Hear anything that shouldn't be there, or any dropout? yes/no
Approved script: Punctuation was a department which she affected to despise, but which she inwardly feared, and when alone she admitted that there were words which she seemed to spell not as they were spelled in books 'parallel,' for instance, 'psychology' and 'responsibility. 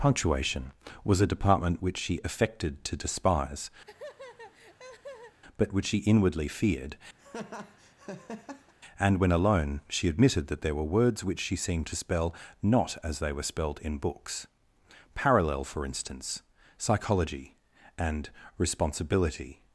yes